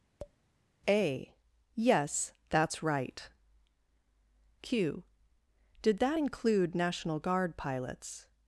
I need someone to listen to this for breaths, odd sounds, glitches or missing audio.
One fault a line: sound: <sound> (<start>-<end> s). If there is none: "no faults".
sound: tap (0.2-0.4 s)